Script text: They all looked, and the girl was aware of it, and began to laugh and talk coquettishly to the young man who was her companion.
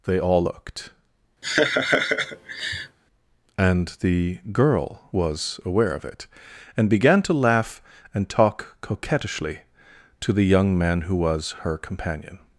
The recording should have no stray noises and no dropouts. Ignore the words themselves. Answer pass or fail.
fail